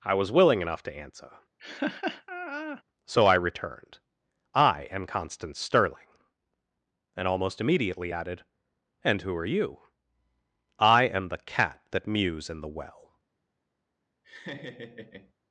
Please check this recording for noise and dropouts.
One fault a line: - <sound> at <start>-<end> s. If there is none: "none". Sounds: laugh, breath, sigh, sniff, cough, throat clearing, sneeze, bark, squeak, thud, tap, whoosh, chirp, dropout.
- laugh at 1.6-2.8 s
- laugh at 14.2-15.3 s